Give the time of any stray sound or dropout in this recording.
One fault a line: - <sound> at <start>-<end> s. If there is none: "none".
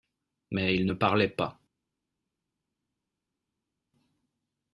none